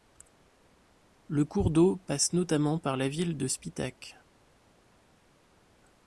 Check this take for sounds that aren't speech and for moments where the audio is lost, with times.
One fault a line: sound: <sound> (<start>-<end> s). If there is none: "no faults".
no faults